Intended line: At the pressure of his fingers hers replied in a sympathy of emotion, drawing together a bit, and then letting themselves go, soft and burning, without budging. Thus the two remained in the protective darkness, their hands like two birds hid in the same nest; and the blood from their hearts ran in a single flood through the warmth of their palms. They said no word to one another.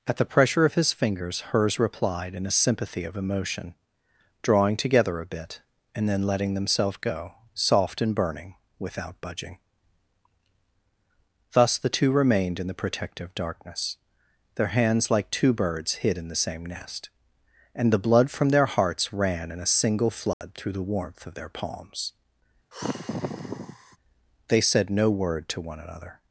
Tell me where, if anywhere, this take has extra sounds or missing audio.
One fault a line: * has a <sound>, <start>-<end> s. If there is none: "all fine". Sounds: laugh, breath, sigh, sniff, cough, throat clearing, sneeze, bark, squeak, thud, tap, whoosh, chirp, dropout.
* has a dropout, 20.3-20.4 s
* has a sigh, 22.7-24.0 s